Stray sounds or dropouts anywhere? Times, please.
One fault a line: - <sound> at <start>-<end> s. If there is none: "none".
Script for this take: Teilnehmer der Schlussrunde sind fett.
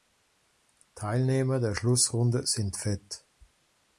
none